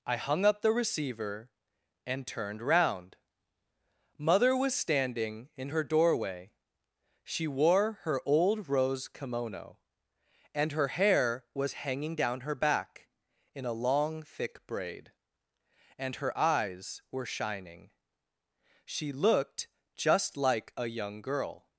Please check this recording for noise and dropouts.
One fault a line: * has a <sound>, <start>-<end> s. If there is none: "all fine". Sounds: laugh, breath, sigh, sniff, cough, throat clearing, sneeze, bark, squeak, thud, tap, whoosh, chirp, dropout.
all fine